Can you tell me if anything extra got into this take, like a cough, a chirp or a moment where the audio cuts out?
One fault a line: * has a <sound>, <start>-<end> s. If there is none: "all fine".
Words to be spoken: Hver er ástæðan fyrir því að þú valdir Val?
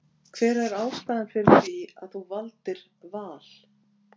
all fine